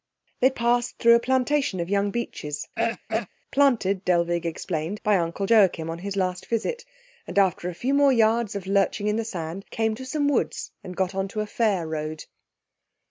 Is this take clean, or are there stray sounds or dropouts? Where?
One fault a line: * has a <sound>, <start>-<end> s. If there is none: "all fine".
* has a throat clearing, 2.8-3.3 s